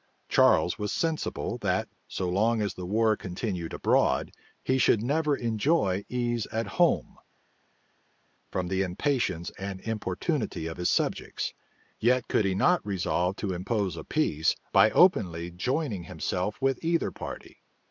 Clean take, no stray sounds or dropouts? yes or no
yes